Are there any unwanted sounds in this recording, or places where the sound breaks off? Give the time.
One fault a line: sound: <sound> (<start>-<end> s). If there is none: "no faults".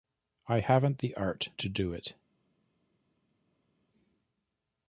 no faults